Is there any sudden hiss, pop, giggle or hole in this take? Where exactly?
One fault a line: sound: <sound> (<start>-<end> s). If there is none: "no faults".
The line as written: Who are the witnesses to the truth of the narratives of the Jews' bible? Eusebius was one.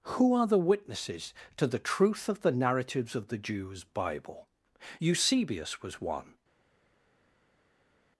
no faults